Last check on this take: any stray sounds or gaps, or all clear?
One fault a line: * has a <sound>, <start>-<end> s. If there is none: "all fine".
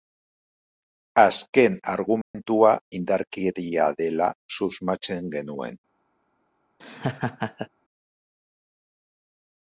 * has a dropout, 2.2-2.3 s
* has a laugh, 6.8-7.7 s